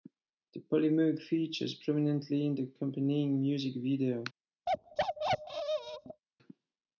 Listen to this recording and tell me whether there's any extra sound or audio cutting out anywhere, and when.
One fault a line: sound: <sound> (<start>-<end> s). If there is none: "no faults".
sound: bark (4.7-6.2 s)